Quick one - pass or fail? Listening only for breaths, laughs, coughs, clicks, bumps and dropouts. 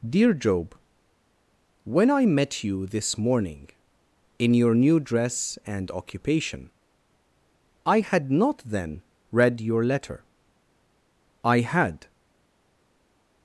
pass